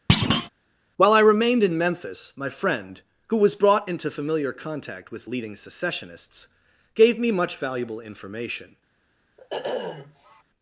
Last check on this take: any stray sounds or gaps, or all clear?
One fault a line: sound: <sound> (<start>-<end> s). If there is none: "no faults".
sound: thud (0.1-0.5 s)
sound: sniff (9.4-10.4 s)